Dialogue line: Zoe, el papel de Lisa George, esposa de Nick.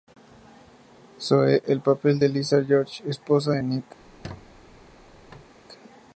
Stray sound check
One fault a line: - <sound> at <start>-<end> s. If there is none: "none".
- squeak at 4.0-5.5 s